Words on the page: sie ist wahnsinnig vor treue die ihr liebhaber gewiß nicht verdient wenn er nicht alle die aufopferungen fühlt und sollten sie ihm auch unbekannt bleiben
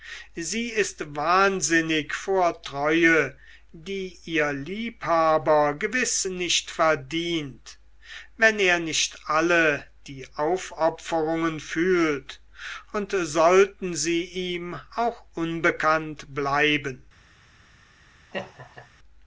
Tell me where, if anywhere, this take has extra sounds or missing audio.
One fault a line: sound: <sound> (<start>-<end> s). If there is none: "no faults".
sound: laugh (18.3-18.9 s)